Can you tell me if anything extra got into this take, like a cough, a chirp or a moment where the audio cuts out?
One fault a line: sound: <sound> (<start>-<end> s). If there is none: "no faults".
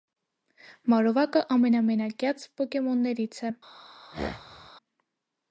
sound: throat clearing (4.1-4.7 s)